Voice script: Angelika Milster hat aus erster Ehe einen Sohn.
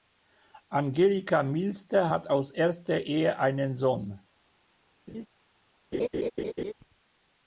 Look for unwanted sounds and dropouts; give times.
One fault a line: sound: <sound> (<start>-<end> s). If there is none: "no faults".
sound: laugh (5.1-5.3 s)
sound: laugh (5.9-6.7 s)